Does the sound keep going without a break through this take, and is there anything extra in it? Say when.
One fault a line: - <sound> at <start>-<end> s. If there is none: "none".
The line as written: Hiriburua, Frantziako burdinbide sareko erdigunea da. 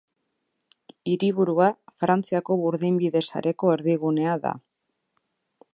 none